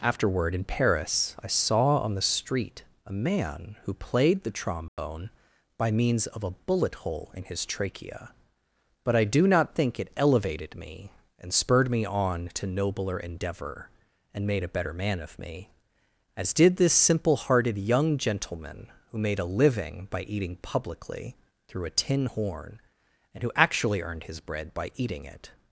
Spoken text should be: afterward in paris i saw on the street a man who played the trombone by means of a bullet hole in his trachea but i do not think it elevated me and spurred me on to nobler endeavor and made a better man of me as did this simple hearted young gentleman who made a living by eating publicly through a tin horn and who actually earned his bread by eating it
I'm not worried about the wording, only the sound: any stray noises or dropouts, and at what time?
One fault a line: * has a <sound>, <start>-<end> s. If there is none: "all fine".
* has a dropout, 4.9-5.0 s